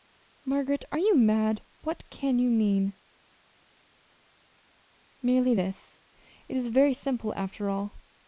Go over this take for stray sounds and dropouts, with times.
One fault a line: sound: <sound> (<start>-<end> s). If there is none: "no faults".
no faults